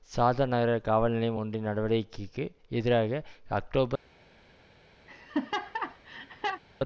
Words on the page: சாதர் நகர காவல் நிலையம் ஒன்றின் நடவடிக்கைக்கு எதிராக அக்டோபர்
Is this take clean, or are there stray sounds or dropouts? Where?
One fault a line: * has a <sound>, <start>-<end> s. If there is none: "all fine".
* has a laugh, 5.1-6.6 s